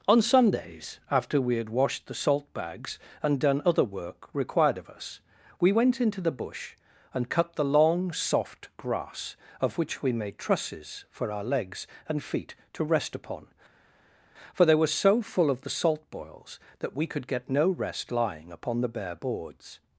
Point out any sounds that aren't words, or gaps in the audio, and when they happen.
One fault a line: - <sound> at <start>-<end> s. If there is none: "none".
none